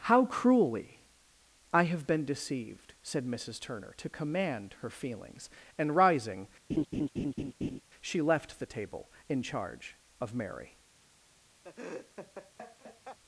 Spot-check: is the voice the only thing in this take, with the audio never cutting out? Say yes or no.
no